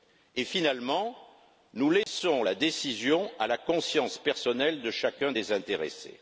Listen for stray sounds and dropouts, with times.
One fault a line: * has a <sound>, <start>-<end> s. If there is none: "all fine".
* has a dropout, 2.0-2.1 s